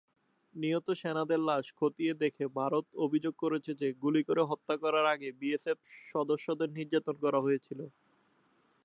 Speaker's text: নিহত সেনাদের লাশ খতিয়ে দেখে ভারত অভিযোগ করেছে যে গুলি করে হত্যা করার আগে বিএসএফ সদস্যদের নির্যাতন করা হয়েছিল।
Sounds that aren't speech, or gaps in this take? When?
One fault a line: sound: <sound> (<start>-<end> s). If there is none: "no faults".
no faults